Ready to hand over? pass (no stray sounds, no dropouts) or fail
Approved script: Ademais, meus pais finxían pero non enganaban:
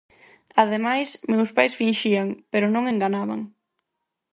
pass